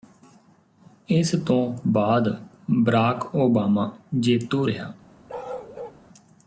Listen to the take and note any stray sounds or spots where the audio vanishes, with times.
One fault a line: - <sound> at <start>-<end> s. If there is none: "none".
- bark at 5.3-6.0 s